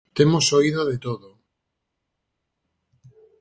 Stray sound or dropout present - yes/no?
no